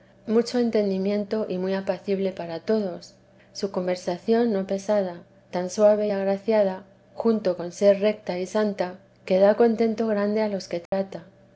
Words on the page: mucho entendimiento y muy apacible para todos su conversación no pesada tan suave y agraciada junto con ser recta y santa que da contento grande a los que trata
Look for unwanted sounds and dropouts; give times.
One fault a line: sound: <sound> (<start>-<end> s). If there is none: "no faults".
sound: dropout (10.9-10.9 s)